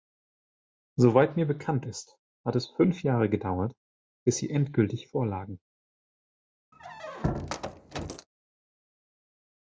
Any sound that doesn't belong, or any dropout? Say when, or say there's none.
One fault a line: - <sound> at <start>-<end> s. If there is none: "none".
- squeak at 6.7-8.3 s